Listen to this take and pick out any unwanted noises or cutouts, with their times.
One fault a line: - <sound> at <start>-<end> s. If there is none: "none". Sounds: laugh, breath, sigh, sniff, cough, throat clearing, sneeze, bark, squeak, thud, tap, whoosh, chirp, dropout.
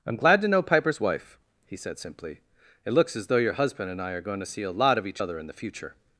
none